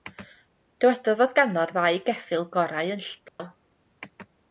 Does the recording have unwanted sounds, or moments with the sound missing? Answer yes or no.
yes